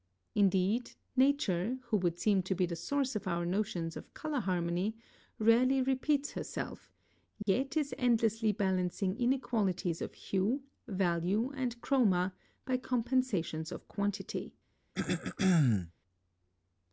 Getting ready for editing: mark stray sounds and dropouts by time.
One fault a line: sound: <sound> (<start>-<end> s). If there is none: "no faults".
sound: dropout (7.4-7.5 s)
sound: throat clearing (14.9-15.9 s)